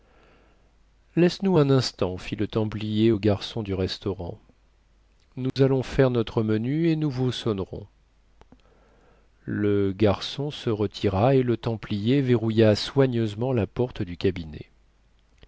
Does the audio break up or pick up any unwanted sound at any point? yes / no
yes